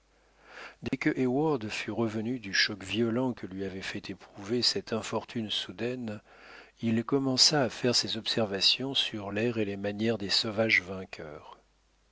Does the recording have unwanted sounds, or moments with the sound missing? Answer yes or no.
yes